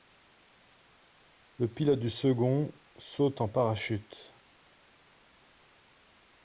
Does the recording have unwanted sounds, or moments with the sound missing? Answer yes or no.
no